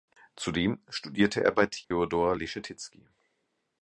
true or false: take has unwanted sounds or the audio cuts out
true